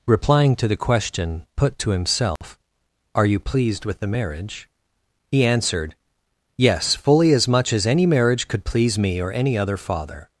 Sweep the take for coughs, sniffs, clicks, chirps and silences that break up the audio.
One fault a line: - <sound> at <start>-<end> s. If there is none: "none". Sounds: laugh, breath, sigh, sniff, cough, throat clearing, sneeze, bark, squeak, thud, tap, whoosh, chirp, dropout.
- dropout at 2.4-2.4 s